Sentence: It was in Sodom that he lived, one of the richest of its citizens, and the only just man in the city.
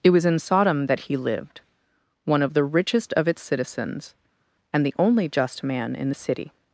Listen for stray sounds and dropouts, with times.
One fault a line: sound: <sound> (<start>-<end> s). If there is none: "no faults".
no faults